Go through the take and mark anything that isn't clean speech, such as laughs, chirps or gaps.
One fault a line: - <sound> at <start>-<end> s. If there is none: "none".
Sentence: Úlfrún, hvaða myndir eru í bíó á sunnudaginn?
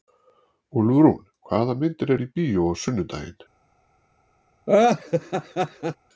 - laugh at 4.7-6.0 s